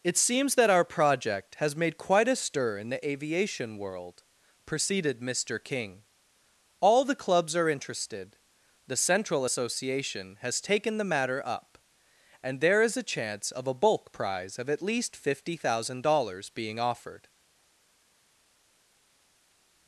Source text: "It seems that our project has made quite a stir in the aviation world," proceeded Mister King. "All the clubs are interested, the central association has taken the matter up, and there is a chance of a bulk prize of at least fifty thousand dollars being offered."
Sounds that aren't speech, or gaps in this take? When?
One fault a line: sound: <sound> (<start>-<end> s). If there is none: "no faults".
no faults